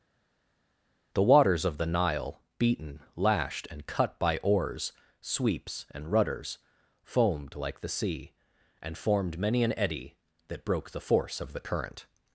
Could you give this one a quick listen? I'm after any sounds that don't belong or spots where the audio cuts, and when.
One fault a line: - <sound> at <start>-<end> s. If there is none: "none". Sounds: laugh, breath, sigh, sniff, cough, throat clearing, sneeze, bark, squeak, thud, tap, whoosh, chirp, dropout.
none